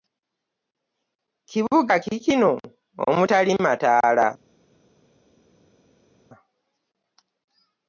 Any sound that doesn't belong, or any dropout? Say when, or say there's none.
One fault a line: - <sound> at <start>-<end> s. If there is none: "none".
none